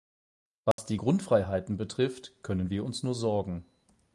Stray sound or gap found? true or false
true